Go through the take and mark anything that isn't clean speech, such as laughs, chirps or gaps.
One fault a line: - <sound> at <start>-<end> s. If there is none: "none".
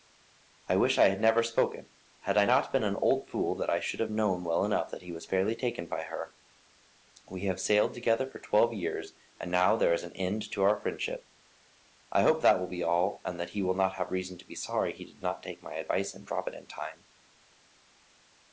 none